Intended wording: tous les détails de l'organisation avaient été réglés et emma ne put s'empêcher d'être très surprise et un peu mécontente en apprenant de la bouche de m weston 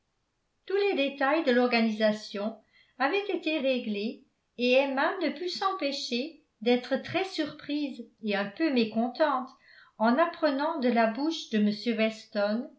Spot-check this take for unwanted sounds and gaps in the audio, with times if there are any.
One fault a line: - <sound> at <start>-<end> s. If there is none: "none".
none